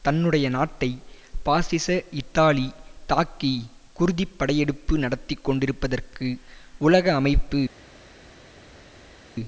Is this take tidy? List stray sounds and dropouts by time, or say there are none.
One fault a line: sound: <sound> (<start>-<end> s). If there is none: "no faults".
no faults